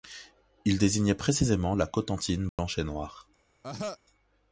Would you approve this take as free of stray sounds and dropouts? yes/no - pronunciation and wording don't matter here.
no